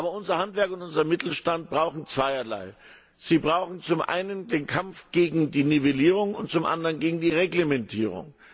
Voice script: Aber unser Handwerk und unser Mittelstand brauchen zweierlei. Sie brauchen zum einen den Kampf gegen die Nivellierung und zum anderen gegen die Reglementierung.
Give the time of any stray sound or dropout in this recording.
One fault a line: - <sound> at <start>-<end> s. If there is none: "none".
none